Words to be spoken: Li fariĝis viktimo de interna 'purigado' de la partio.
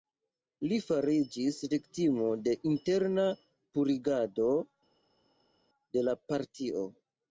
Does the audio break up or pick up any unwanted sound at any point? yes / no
no